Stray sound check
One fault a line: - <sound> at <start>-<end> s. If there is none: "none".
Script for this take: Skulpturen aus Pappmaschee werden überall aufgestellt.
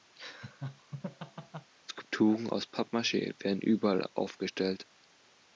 - laugh at 0.2-1.7 s